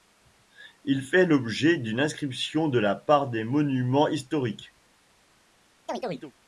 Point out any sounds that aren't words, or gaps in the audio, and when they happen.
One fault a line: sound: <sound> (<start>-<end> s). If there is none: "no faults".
sound: chirp (5.9-6.3 s)